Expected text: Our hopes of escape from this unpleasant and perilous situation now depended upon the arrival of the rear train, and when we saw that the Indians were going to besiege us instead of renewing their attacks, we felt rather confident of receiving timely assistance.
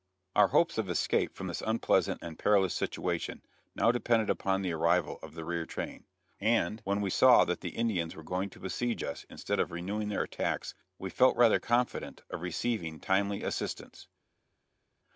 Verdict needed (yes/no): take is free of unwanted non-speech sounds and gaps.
yes